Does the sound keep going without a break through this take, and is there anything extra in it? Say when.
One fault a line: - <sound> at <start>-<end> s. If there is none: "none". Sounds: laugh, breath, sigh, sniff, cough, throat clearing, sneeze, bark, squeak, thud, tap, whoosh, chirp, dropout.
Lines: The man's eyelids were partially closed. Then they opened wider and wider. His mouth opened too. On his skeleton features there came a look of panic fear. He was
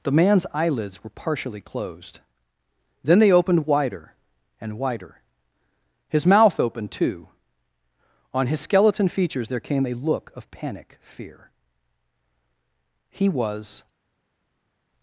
none